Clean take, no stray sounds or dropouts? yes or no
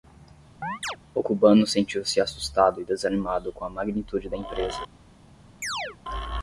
no